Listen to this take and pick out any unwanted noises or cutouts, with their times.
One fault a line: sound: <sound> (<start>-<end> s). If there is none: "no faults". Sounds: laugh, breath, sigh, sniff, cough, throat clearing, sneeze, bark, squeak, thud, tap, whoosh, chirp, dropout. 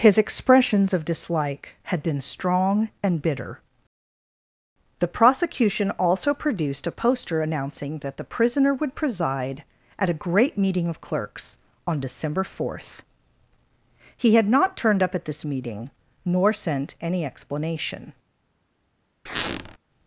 sound: squeak (19.3-19.8 s)